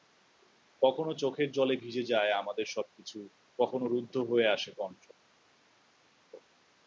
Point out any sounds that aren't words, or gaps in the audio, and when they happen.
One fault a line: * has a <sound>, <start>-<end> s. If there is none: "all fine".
all fine